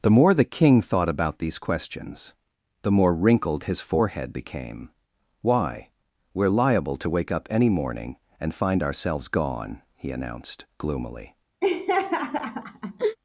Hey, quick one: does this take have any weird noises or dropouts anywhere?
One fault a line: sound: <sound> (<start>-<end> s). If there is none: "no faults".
sound: laugh (11.6-13.2 s)